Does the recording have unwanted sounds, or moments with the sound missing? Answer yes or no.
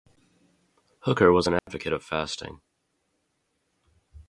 yes